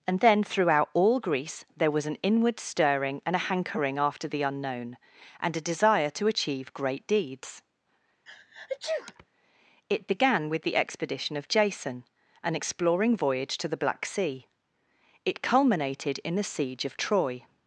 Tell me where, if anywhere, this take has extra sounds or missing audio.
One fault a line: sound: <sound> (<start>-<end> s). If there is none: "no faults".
sound: sneeze (8.3-9.3 s)